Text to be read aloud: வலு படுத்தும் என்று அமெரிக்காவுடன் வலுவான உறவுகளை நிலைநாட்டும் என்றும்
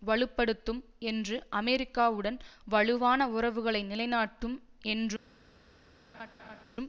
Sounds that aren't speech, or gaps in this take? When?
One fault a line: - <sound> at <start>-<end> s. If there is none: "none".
- laugh at 6.1-6.6 s